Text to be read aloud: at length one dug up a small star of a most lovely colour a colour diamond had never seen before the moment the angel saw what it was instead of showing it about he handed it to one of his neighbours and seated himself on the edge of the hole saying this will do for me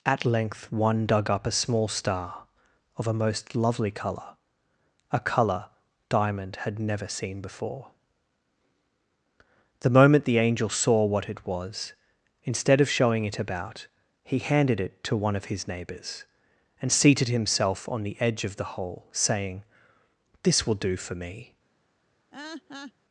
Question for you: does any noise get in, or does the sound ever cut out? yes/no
yes